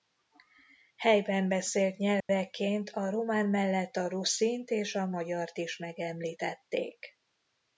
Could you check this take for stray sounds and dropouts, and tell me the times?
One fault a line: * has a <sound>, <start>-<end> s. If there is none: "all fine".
* has a dropout, 2.2-2.3 s